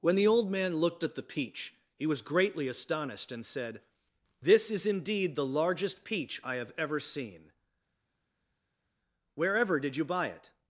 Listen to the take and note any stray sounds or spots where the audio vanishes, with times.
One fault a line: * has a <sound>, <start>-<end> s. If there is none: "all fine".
all fine